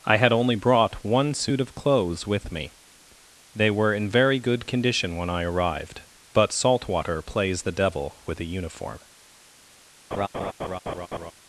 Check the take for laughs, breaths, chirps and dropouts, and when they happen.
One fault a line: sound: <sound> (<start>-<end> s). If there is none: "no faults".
sound: laugh (10.1-11.3 s)